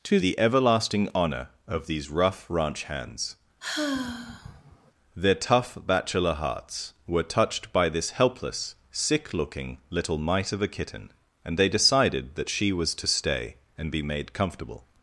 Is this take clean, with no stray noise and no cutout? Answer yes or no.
no